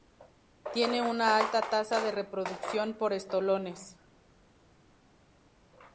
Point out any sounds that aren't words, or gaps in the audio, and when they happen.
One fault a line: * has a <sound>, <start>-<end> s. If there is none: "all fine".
all fine